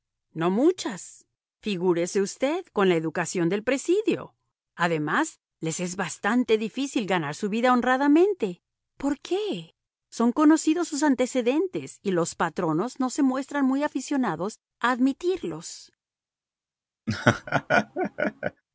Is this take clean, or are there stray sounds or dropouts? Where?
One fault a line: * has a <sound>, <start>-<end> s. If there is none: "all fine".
* has a laugh, 17.1-18.6 s